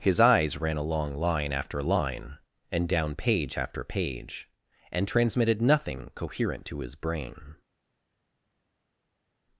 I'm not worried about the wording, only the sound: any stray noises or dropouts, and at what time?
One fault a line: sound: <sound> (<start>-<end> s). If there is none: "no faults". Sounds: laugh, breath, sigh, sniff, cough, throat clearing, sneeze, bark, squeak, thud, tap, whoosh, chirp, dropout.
no faults